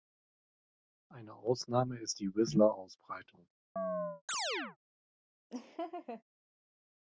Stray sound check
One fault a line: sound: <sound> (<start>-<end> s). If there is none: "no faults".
sound: chirp (3.8-4.8 s)
sound: laugh (5.5-6.2 s)